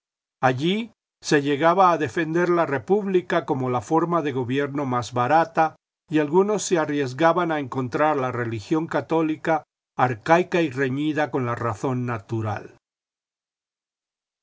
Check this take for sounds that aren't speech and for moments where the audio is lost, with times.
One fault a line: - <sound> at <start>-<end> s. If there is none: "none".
none